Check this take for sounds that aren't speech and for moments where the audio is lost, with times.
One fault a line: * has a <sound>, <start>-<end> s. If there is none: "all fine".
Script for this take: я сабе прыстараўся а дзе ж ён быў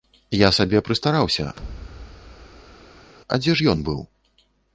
* has a thud, 1.6-3.1 s